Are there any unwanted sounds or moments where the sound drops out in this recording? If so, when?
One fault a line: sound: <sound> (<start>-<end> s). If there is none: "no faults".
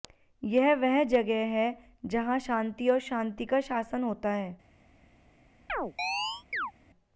sound: chirp (5.7-6.7 s)